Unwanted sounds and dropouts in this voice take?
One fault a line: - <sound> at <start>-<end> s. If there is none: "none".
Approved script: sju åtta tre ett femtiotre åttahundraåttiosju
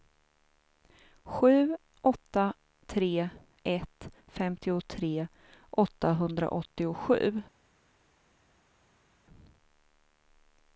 none